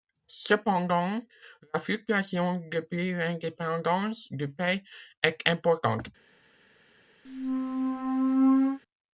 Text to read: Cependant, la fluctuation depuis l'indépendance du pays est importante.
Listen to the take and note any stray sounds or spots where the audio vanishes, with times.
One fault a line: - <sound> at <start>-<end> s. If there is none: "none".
- squeak at 7.2-8.8 s